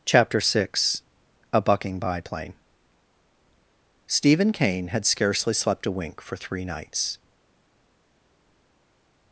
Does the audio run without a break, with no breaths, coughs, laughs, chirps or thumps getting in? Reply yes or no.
yes